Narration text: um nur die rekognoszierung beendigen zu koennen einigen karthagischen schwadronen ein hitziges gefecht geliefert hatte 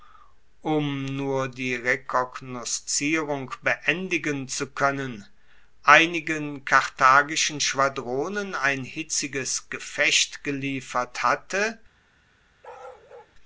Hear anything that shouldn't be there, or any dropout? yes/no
yes